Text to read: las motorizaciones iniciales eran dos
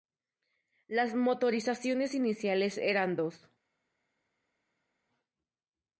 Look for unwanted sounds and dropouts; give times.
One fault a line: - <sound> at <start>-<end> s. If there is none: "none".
none